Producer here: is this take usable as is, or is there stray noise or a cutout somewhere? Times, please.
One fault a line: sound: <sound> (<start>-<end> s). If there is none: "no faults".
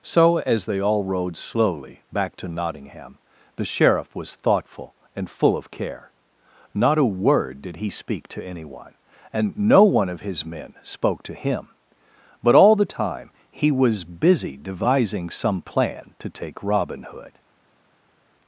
no faults